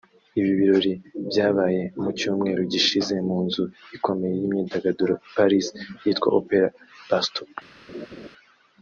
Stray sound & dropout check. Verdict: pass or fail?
fail